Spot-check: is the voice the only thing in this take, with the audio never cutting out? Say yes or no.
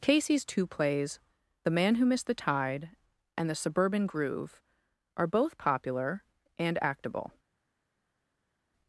yes